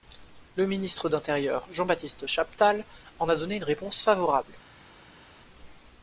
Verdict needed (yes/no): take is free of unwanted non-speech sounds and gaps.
yes